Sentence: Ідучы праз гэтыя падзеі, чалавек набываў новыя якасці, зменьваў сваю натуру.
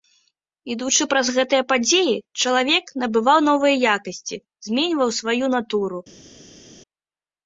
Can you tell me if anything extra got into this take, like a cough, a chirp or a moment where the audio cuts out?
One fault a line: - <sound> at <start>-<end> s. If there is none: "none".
none